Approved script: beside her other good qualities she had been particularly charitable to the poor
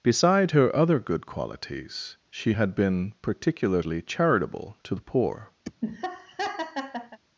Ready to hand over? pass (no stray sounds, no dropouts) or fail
fail